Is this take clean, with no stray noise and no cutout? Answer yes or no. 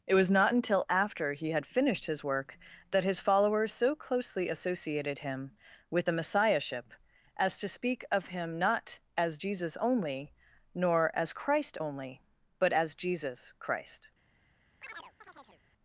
no